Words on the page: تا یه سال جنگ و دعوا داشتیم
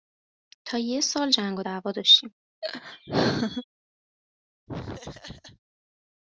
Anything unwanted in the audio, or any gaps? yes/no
yes